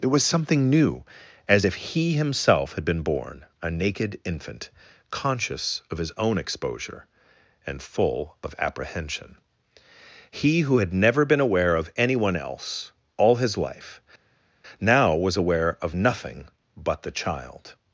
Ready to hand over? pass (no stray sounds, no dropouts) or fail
pass